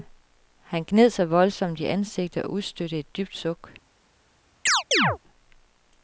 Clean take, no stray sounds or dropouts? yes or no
no